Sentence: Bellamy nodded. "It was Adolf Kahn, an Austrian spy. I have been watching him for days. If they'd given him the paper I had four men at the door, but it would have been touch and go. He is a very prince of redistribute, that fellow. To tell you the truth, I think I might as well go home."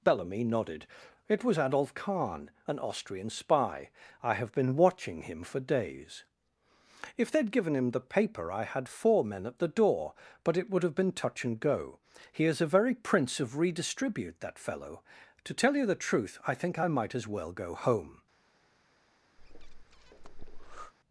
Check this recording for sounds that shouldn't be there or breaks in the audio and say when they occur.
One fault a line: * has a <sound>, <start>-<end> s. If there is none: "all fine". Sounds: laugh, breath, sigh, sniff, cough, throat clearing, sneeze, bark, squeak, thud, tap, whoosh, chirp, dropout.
* has a breath, 19.4-20.9 s